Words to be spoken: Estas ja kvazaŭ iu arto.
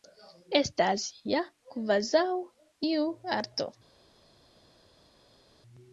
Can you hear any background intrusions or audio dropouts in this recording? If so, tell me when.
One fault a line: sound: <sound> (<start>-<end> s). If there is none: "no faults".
no faults